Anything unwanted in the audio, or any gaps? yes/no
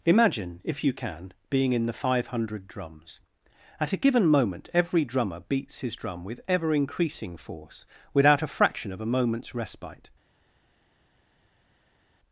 no